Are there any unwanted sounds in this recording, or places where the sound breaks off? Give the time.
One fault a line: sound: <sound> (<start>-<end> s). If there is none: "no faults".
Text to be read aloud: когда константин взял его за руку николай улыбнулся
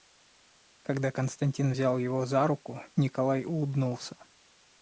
no faults